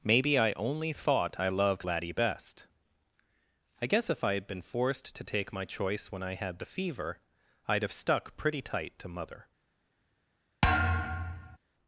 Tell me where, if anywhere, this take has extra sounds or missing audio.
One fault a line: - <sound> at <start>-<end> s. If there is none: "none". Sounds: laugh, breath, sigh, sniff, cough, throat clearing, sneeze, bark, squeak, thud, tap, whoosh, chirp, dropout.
- thud at 10.6-11.6 s